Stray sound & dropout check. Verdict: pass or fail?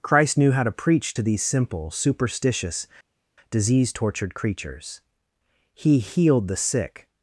pass